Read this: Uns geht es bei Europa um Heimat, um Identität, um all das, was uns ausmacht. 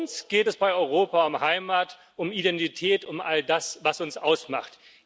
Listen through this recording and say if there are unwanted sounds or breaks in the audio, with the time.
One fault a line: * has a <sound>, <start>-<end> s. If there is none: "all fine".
all fine